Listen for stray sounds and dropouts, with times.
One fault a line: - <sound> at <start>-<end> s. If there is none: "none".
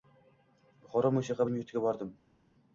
none